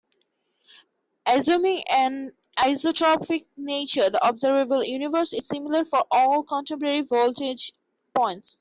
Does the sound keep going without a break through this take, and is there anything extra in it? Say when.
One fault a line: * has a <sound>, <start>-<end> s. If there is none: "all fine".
all fine